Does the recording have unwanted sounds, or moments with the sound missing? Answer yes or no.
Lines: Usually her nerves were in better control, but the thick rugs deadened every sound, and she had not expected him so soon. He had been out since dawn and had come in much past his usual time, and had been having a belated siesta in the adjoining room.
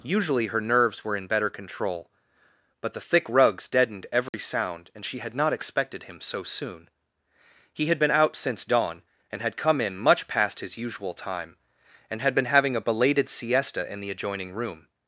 yes